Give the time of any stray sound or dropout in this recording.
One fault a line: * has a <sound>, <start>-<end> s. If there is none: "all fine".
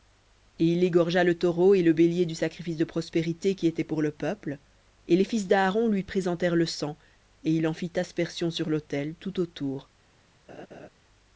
* has a laugh, 10.5-10.9 s